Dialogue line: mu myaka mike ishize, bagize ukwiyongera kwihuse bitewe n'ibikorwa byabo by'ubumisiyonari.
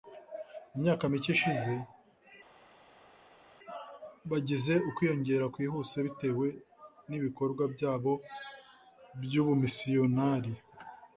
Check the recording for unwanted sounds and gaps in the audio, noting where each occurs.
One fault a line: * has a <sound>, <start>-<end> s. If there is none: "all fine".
all fine